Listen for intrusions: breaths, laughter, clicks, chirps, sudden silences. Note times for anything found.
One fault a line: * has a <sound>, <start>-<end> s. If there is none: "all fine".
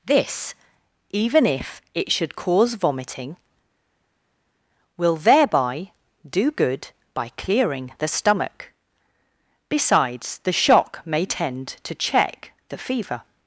all fine